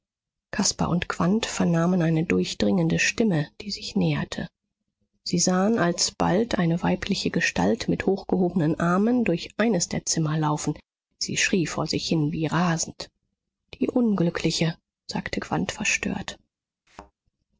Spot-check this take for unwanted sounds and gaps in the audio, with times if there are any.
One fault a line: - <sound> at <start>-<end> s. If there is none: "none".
- thud at 16.9-17.1 s